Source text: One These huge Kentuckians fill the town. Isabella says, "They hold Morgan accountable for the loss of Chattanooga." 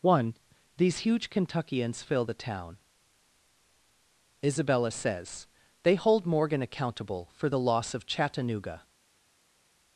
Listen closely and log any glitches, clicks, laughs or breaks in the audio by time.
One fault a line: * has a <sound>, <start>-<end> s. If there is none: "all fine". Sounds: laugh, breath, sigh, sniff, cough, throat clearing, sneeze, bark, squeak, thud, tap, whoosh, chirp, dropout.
all fine